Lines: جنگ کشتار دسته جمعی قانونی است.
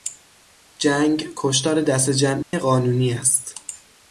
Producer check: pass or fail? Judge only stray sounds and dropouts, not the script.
fail